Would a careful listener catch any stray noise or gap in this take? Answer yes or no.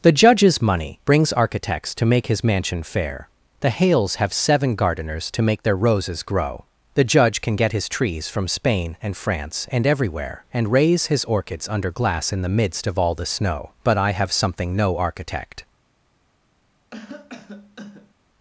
yes